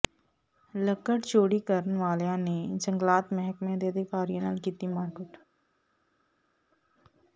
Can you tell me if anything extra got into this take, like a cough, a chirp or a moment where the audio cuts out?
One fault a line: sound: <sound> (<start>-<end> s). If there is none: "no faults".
no faults